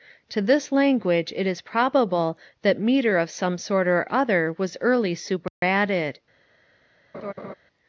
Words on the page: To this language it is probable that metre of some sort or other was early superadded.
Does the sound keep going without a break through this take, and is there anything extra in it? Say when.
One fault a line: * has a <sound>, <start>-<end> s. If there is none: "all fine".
* has a dropout, 5.5-5.6 s
* has a laugh, 7.1-7.5 s